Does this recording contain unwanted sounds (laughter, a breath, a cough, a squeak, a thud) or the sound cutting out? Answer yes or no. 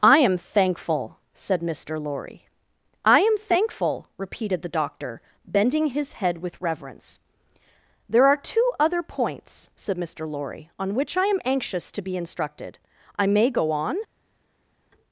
no